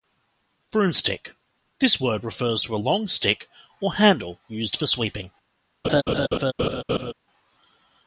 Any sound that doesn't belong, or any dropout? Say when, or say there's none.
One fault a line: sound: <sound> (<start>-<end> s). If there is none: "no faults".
sound: laugh (5.8-7.1 s)